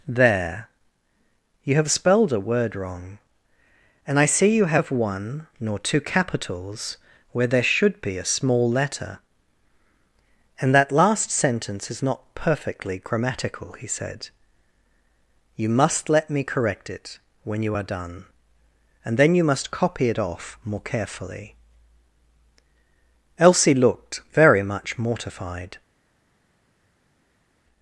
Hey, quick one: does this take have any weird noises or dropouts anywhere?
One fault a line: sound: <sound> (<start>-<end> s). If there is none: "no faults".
no faults